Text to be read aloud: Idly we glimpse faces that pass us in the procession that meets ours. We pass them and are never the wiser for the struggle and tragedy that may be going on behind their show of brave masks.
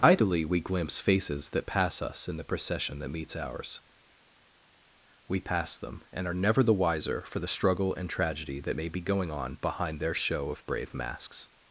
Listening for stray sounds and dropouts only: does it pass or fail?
pass